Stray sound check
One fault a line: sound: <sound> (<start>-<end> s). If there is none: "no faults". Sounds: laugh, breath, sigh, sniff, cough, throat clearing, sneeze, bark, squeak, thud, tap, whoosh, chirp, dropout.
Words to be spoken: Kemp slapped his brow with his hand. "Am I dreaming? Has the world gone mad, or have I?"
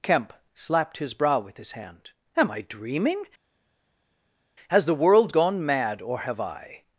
no faults